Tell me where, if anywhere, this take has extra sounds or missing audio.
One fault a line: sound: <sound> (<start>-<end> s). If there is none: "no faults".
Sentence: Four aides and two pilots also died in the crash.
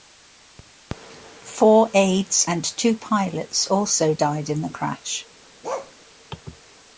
sound: bark (5.6-5.9 s)